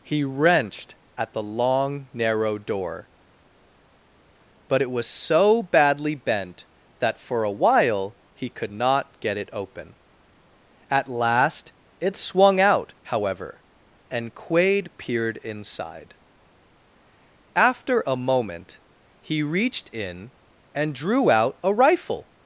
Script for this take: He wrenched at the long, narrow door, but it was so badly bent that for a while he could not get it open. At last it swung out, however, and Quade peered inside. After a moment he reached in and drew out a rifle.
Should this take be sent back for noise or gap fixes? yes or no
no